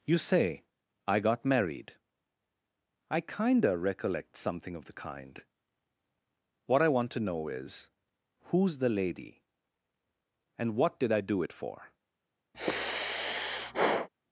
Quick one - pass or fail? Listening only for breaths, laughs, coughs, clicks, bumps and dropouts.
fail